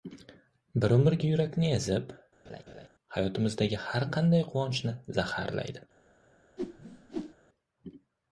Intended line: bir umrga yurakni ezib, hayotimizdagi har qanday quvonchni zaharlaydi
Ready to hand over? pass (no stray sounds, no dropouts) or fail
fail